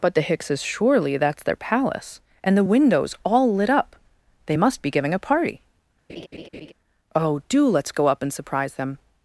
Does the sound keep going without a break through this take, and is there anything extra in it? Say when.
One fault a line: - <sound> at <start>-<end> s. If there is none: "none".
- laugh at 6.1-6.7 s